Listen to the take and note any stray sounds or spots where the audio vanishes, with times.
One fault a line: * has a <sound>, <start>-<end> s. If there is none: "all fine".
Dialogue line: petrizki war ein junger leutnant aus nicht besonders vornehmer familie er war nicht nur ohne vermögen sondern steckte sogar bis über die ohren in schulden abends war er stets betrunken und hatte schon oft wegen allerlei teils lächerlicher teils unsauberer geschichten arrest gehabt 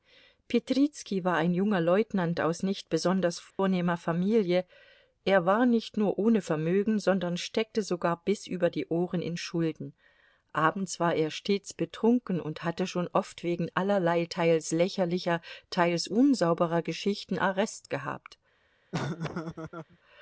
* has a dropout, 3.5-3.6 s
* has a laugh, 18.9-20.0 s